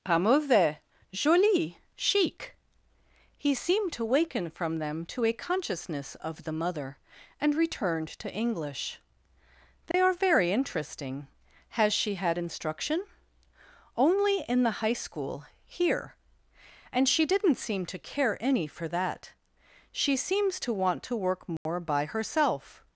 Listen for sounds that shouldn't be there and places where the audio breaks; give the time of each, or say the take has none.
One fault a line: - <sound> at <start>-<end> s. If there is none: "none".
- dropout at 9.9-9.9 s
- dropout at 21.6-21.7 s